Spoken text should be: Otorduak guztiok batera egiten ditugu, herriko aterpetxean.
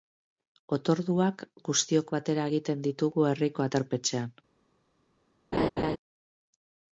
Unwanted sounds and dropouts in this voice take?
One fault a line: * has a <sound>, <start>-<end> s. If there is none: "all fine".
* has a laugh, 5.5-6.0 s